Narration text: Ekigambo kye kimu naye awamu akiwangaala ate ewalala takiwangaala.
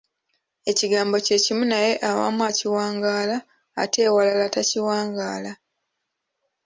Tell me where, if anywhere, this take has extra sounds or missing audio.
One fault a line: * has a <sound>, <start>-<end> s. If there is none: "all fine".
all fine